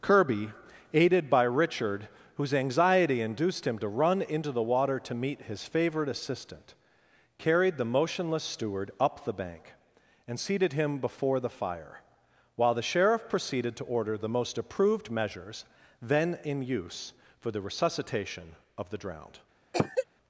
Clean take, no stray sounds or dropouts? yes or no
no